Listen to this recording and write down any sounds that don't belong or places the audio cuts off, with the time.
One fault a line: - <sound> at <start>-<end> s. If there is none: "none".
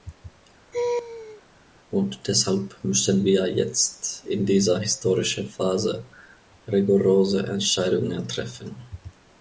- laugh at 0.7-1.4 s